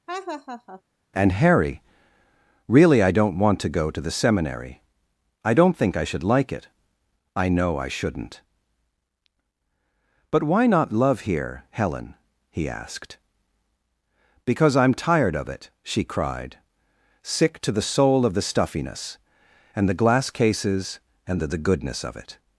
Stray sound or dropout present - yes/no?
yes